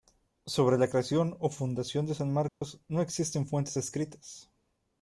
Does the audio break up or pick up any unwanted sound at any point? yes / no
yes